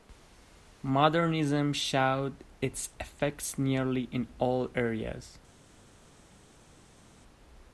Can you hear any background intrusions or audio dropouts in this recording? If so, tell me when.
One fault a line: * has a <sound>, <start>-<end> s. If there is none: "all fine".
all fine